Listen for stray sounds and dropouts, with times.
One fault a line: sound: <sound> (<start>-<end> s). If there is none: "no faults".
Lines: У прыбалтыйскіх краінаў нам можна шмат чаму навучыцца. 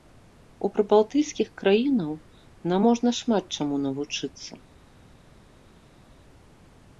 no faults